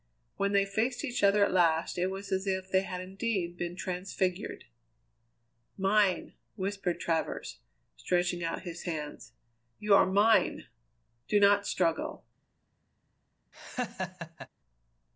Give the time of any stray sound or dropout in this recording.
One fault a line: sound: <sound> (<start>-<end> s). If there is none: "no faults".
sound: laugh (13.5-14.5 s)